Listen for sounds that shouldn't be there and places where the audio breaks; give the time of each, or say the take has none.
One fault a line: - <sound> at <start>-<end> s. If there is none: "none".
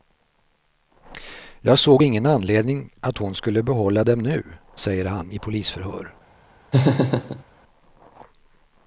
- laugh at 6.7-7.4 s